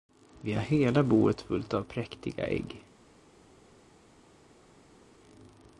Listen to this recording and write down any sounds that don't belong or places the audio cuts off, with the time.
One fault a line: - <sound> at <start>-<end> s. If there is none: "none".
none